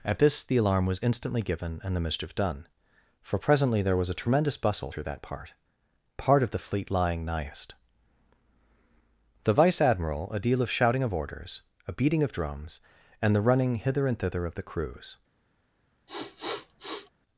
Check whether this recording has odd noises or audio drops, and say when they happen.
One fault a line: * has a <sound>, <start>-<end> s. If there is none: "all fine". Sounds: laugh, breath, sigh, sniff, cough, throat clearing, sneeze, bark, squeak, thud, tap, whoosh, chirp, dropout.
* has a sniff, 16.1-17.1 s